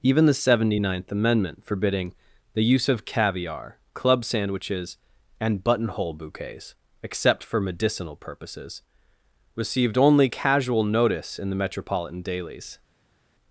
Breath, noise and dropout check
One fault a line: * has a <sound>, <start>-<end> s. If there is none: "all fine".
all fine